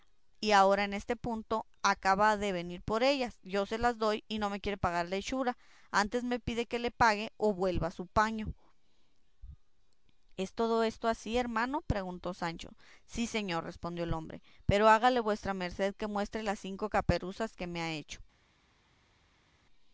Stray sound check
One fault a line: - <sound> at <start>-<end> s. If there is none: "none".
none